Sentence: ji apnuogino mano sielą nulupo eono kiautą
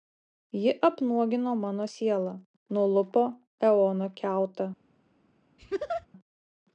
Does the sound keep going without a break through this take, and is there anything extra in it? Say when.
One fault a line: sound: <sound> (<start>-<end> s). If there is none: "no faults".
sound: laugh (5.6-6.1 s)